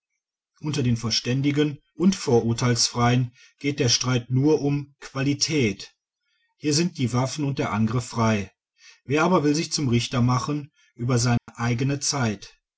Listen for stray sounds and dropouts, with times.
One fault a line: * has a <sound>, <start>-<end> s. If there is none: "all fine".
* has a dropout, 11.4-11.5 s